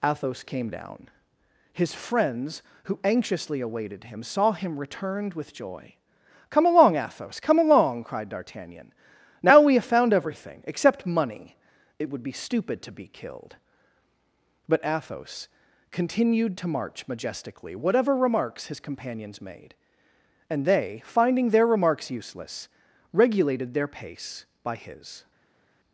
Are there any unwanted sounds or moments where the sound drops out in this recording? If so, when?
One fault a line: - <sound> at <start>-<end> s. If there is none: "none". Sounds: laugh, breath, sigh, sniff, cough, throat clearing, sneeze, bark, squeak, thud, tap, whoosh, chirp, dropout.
none